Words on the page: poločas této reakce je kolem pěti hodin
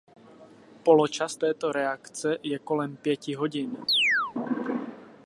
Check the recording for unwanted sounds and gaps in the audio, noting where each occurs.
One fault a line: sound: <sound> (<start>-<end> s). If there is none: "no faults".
sound: chirp (3.9-4.3 s)